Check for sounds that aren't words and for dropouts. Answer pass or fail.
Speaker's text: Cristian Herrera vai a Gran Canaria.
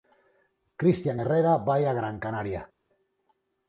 pass